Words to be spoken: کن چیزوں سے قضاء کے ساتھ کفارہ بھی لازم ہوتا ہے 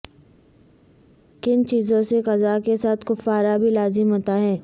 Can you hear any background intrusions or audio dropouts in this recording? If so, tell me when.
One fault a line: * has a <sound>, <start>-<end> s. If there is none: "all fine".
all fine